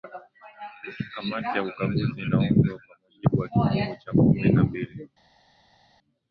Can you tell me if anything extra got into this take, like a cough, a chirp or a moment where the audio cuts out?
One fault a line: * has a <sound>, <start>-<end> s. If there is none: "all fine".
all fine